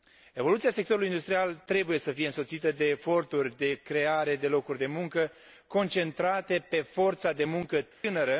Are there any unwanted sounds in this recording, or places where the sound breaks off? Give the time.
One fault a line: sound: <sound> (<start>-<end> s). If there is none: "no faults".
sound: dropout (7.9-8.0 s)